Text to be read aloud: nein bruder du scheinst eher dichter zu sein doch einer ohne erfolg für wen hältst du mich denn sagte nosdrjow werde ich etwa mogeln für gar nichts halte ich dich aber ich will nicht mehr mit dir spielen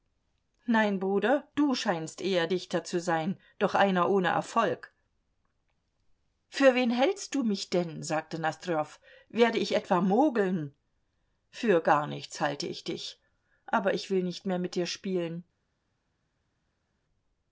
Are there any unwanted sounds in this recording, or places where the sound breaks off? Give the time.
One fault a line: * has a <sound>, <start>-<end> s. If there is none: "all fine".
all fine